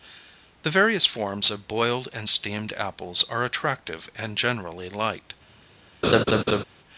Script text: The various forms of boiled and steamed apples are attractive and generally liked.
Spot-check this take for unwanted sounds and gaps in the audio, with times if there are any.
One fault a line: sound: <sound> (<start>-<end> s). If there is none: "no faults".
sound: laugh (6.0-6.6 s)